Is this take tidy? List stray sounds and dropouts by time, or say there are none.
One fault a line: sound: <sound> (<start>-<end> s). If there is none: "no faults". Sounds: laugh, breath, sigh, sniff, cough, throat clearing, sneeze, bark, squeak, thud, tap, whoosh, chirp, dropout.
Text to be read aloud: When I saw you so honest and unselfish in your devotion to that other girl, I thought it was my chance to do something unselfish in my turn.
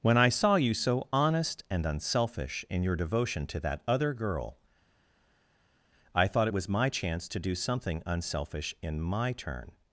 no faults